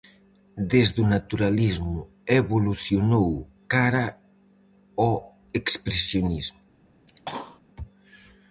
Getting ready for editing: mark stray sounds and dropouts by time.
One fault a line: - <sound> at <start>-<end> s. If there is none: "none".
- cough at 7.1-7.6 s